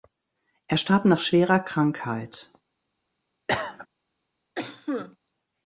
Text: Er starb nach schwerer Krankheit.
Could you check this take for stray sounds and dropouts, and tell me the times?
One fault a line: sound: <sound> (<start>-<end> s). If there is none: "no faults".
sound: cough (3.5-3.9 s)
sound: cough (4.5-5.2 s)